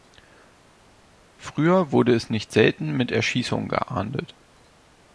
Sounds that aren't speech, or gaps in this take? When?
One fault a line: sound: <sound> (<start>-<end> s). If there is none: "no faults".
no faults